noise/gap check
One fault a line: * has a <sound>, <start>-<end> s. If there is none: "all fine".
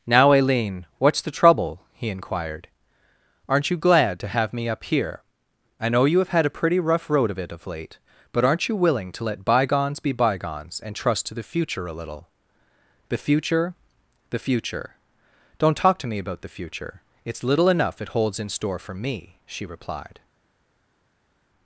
all fine